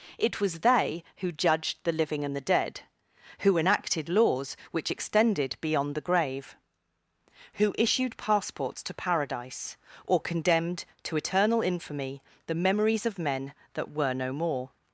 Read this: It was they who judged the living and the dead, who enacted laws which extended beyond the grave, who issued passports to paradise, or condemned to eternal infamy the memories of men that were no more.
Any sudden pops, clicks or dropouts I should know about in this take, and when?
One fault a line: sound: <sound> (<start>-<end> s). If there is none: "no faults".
no faults